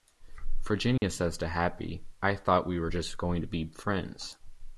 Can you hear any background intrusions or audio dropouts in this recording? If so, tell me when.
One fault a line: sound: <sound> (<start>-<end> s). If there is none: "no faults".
sound: dropout (1.0-1.0 s)